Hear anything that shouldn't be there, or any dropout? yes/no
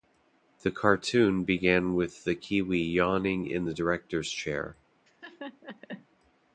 yes